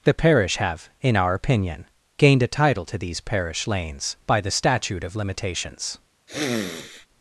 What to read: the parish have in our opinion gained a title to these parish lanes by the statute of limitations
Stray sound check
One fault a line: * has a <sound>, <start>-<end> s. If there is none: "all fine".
* has a sniff, 6.3-7.1 s